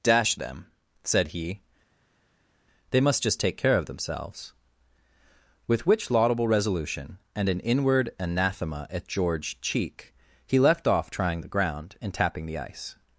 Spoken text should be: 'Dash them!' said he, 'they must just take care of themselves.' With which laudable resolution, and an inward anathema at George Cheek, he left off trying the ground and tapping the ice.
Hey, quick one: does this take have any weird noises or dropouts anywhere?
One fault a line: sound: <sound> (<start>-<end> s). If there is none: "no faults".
no faults